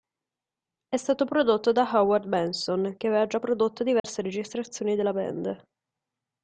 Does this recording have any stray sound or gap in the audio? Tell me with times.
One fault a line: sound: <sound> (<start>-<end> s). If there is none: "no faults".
sound: dropout (4.0-4.0 s)